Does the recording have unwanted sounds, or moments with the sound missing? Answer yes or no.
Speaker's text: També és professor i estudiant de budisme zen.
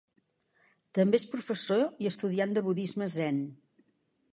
no